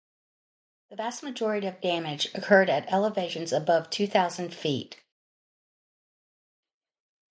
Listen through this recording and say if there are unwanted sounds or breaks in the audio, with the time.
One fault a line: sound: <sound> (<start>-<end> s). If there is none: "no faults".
no faults